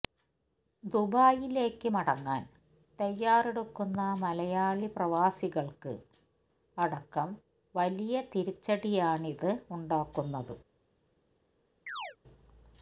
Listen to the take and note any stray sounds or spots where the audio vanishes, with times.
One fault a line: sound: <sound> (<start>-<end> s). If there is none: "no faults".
sound: chirp (11.9-12.2 s)